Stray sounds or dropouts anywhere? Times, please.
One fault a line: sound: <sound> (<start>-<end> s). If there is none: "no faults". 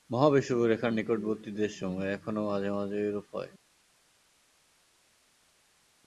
no faults